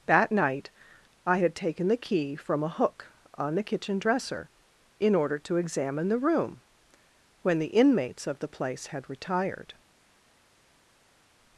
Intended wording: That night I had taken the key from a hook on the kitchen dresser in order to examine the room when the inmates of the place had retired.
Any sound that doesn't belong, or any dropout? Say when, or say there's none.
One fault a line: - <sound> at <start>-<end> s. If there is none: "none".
none